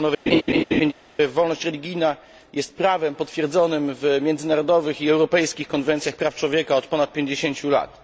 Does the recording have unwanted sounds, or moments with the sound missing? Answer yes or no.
yes